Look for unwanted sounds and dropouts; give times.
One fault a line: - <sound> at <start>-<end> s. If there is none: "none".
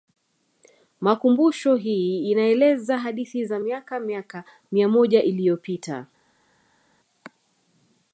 none